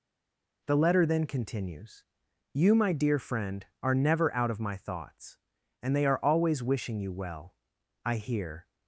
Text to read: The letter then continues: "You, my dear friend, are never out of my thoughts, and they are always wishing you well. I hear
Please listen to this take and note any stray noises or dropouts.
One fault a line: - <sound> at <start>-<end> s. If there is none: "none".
none